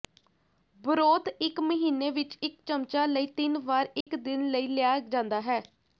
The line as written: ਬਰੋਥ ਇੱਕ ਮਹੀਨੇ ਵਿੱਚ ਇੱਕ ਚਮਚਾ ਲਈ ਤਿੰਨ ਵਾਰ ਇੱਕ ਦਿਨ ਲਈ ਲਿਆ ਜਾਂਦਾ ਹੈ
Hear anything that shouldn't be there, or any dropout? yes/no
yes